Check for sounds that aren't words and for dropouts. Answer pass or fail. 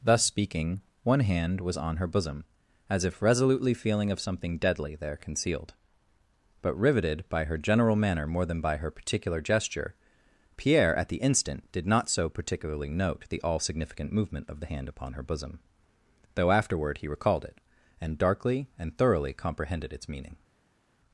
pass